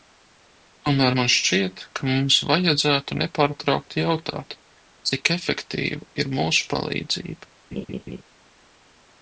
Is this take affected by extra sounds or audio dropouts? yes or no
yes